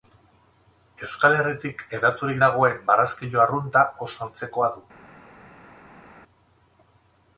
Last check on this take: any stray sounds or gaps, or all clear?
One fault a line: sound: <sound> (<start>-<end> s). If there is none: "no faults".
no faults